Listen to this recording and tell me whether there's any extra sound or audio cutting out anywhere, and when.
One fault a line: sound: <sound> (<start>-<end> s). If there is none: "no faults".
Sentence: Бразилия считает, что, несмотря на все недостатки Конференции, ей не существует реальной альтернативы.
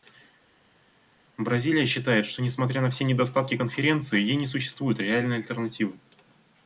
no faults